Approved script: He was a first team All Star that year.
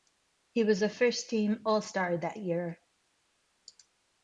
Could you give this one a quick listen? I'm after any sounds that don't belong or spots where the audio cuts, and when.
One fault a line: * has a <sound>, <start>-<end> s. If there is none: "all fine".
all fine